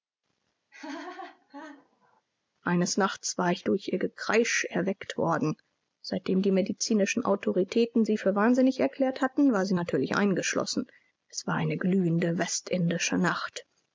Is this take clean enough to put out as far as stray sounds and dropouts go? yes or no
no